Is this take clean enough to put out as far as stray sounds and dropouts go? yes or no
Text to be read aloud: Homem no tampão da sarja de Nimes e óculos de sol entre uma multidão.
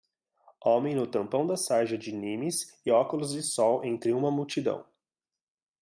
yes